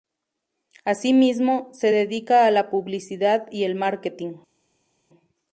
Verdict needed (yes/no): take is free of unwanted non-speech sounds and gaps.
yes